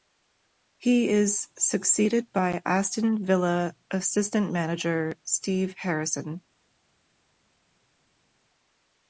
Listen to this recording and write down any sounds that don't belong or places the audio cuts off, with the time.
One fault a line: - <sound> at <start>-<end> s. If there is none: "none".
none